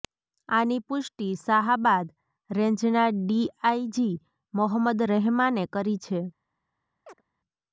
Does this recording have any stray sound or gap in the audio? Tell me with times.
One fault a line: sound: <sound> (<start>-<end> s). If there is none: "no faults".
sound: chirp (7.1-7.2 s)